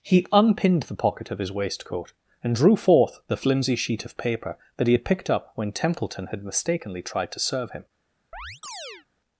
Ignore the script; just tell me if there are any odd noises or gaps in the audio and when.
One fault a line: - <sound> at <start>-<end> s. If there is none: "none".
- chirp at 8.3-9.1 s